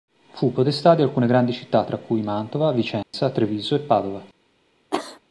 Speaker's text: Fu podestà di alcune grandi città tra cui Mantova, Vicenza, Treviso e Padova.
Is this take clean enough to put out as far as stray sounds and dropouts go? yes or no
no